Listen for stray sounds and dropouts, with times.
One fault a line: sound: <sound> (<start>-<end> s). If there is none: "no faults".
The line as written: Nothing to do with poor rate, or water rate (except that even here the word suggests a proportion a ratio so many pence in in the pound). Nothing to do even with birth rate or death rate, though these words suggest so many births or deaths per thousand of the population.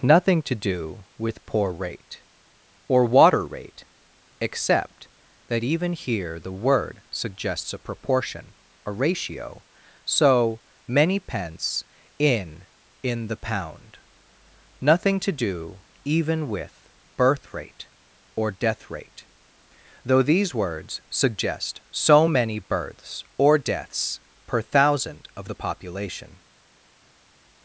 no faults